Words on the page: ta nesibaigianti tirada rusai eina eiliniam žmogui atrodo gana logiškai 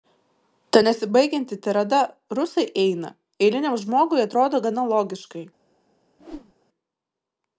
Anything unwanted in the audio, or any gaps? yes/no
yes